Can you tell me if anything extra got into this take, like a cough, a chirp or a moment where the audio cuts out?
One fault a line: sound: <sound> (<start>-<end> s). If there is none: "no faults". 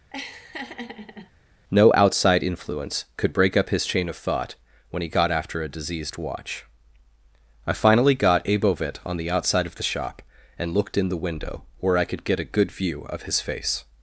sound: laugh (0.1-1.3 s)